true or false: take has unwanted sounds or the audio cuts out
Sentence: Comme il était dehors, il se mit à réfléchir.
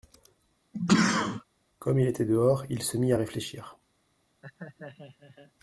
true